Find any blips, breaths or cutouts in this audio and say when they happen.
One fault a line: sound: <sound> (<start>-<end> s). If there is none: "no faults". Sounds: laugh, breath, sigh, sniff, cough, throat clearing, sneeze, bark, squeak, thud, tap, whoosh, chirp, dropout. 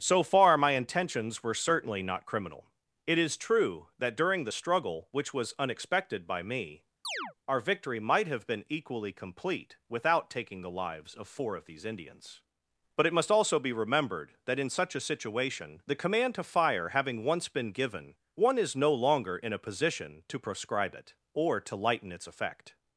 sound: chirp (7.0-7.3 s)